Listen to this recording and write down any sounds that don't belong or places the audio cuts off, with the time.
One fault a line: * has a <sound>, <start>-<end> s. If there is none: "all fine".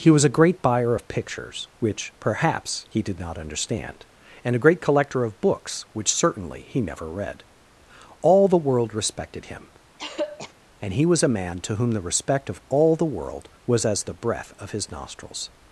* has a throat clearing, 10.0-10.5 s